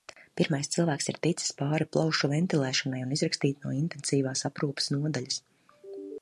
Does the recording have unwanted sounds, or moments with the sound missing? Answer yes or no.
no